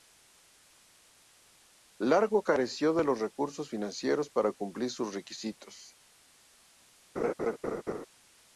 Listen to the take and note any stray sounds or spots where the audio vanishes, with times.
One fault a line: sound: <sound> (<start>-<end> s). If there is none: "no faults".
sound: laugh (7.2-8.1 s)